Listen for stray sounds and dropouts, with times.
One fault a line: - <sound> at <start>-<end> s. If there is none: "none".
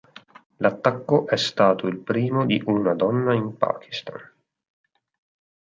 none